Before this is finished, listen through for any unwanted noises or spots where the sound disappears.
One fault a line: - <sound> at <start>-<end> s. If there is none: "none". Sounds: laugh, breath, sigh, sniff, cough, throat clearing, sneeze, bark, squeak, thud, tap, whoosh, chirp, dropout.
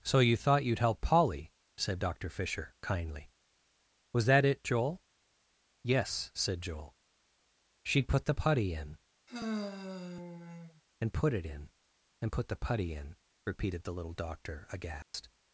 - sigh at 9.3-10.8 s
- dropout at 15.0-15.1 s